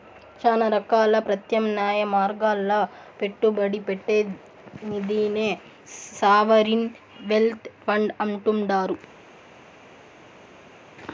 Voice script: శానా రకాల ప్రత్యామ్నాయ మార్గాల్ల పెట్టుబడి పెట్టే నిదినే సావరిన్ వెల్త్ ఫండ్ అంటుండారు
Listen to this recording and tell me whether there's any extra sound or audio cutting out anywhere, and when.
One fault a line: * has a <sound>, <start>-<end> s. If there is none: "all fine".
all fine